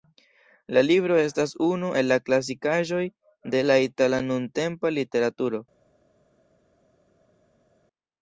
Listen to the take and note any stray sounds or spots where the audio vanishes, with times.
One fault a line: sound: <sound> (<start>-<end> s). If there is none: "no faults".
no faults